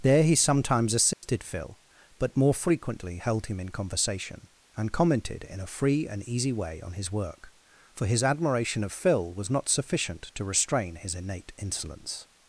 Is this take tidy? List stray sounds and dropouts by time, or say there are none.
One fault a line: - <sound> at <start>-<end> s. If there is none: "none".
- dropout at 1.1-1.2 s